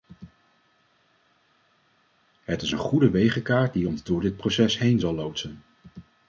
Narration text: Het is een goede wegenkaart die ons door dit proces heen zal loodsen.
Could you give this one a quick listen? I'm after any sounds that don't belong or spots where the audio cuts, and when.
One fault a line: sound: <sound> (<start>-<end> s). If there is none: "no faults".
no faults